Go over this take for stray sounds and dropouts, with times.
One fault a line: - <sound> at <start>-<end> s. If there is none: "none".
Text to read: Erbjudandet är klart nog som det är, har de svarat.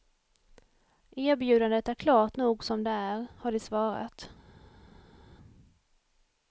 none